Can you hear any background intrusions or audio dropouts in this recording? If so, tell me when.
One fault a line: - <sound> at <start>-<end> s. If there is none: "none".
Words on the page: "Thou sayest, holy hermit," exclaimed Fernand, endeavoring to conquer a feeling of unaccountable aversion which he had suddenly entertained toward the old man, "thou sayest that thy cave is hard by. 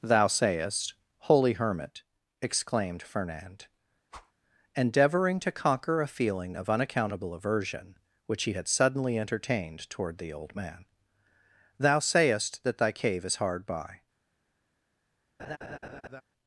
- whoosh at 4.1-4.3 s
- laugh at 15.4-16.2 s